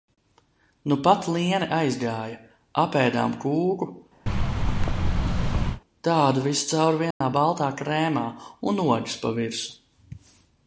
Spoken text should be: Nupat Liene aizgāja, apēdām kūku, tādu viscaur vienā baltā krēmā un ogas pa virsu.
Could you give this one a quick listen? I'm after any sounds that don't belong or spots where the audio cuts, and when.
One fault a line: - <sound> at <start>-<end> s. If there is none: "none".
- thud at 4.3-5.8 s
- dropout at 7.1-7.2 s